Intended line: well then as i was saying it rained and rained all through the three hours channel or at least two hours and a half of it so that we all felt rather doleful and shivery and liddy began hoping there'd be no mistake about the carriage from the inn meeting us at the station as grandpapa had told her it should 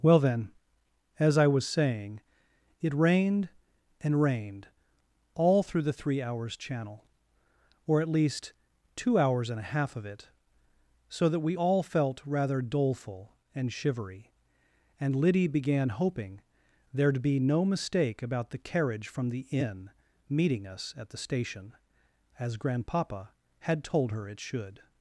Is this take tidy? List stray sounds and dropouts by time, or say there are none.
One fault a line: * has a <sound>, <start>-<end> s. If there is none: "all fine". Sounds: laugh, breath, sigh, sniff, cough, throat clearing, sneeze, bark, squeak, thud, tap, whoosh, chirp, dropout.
all fine